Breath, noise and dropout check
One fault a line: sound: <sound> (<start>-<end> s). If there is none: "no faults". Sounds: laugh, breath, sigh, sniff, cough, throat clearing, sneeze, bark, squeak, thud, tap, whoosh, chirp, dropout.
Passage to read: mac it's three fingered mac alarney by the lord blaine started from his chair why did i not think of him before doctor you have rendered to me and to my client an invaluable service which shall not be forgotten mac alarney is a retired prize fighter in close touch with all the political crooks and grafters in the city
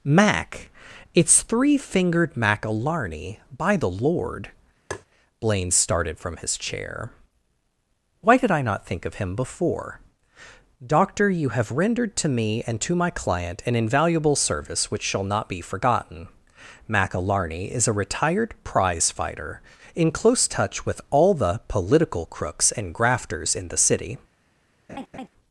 sound: tap (4.9-5.1 s)
sound: laugh (24.9-25.3 s)